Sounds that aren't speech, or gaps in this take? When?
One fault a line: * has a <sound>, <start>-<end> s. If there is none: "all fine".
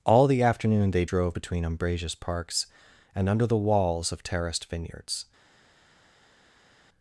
all fine